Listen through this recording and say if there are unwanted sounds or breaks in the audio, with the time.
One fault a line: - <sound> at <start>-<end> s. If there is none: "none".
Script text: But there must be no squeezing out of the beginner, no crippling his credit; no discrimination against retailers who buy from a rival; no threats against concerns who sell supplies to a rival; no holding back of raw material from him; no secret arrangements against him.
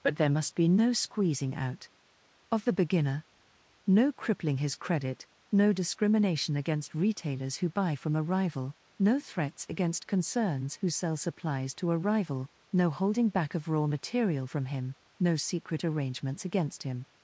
none